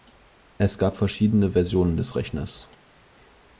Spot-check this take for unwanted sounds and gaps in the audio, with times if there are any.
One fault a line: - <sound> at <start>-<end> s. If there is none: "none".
none